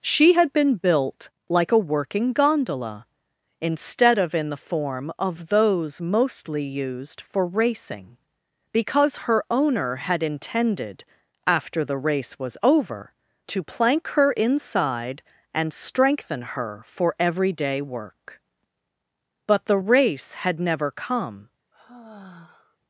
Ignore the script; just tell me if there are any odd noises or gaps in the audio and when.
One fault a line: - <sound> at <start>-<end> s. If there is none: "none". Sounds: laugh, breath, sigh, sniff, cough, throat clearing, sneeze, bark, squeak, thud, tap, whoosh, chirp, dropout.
- sigh at 21.7-22.8 s